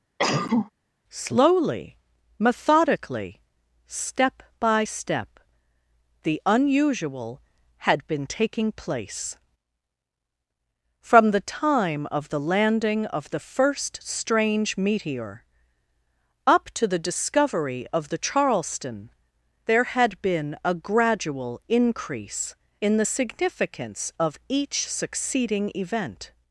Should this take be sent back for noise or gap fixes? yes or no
yes